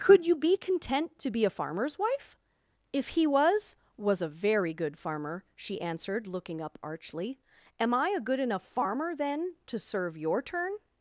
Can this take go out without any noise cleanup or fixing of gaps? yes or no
yes